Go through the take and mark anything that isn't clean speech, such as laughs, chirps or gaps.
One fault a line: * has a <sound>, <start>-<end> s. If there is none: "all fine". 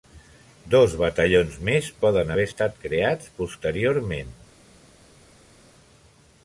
all fine